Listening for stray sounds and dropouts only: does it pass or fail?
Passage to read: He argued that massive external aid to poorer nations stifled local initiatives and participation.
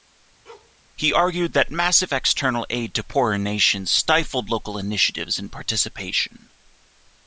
fail